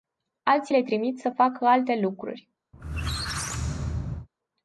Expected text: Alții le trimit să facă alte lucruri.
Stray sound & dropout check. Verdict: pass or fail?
fail